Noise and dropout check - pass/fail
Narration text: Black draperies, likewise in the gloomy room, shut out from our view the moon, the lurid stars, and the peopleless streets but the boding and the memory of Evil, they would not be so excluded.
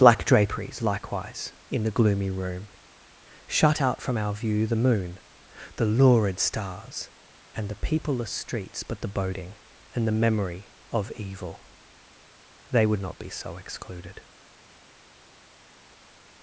pass